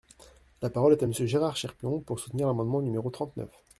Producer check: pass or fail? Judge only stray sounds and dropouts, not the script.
pass